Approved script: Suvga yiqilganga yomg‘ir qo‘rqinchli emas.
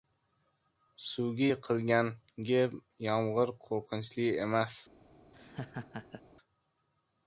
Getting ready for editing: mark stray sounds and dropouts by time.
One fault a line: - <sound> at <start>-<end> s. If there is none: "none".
- laugh at 5.3-6.2 s